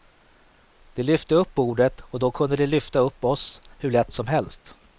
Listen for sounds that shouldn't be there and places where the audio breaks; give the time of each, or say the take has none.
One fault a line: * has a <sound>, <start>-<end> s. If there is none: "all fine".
all fine